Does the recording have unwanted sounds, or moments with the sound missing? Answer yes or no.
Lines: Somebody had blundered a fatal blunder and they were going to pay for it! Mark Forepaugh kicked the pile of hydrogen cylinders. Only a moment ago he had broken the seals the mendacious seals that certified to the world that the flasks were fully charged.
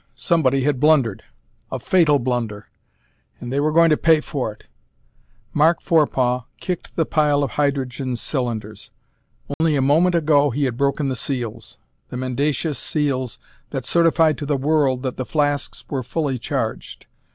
yes